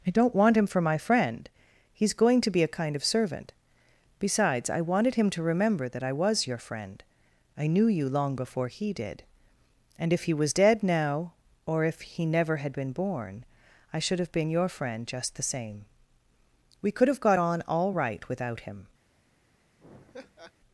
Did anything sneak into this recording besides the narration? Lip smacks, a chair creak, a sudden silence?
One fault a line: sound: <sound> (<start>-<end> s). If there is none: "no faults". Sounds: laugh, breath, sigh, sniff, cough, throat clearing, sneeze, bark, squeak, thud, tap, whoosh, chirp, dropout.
sound: laugh (19.8-20.5 s)